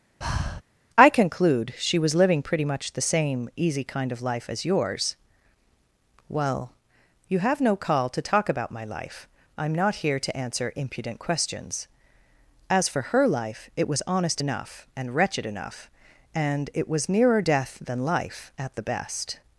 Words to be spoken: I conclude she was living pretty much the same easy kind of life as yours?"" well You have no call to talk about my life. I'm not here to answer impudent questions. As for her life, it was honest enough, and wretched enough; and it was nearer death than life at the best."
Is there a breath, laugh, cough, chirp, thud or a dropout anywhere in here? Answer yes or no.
yes